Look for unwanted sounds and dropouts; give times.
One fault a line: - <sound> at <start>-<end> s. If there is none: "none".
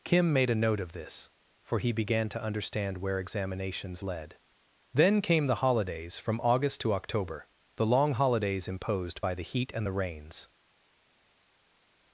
none